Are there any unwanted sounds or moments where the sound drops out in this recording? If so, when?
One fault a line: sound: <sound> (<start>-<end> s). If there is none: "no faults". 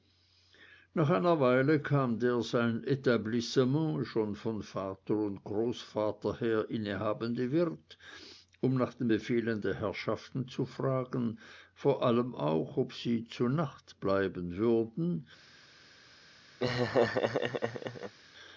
sound: laugh (16.6-18.1 s)